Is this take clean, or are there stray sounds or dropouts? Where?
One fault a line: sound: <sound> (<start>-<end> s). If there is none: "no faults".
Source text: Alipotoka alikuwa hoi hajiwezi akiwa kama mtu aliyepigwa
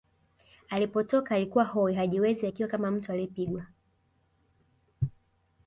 no faults